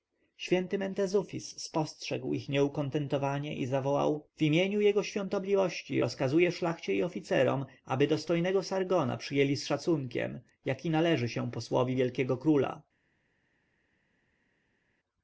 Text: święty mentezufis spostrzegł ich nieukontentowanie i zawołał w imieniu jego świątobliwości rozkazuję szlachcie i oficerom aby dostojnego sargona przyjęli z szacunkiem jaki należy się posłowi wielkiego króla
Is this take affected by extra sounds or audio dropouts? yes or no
no